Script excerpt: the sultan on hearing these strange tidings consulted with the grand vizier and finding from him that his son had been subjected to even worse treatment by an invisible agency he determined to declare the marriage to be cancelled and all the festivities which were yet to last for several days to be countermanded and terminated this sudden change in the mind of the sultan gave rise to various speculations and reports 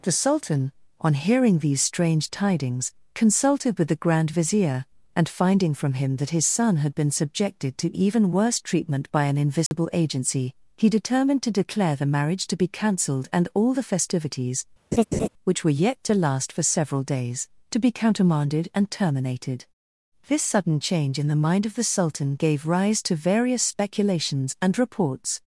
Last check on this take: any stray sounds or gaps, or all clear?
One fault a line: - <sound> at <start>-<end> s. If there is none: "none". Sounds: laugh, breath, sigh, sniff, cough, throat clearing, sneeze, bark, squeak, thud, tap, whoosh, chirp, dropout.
- dropout at 9.7-9.7 s
- laugh at 14.9-15.3 s